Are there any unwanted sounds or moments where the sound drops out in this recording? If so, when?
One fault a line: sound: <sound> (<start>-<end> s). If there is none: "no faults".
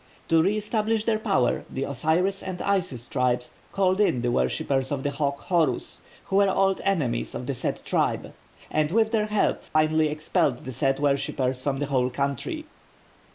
sound: dropout (9.7-9.8 s)